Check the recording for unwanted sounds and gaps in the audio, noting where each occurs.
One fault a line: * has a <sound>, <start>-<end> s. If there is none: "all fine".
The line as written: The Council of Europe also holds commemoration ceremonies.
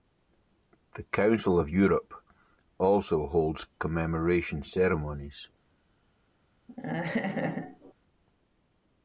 * has a laugh, 6.7-7.9 s